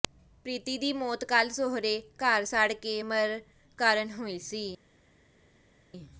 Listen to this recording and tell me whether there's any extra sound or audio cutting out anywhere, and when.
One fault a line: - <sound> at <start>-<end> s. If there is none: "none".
none